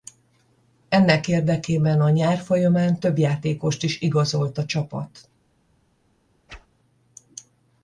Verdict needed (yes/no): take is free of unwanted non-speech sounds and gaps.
no